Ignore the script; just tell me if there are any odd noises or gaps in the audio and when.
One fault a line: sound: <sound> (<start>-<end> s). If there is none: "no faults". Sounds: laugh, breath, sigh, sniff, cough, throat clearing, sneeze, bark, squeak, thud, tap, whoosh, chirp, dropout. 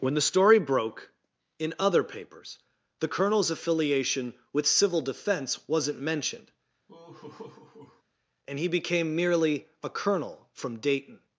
sound: laugh (6.9-8.0 s)